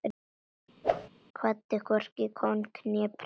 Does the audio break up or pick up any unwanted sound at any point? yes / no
yes